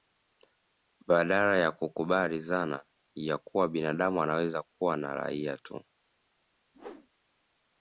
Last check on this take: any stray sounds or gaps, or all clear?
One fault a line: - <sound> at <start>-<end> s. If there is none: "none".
- whoosh at 6.7-7.1 s